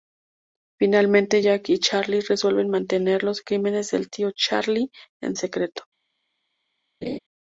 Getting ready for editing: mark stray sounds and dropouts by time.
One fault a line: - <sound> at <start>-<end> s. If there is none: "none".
- laugh at 7.0-7.2 s